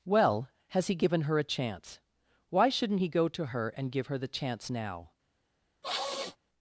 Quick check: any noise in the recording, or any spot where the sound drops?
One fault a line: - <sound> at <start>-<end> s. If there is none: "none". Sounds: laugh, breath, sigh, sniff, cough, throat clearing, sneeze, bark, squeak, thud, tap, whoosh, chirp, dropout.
- sniff at 5.8-6.4 s